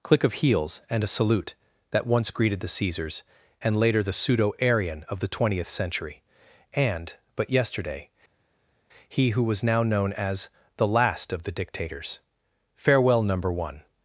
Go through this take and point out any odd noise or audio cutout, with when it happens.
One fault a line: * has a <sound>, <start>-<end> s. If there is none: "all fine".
all fine